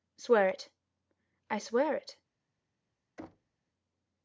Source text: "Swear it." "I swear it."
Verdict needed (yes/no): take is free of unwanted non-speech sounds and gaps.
no